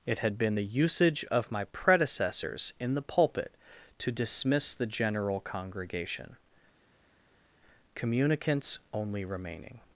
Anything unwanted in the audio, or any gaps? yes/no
no